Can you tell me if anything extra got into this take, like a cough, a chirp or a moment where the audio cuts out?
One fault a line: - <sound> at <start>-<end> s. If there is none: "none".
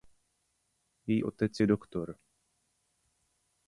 none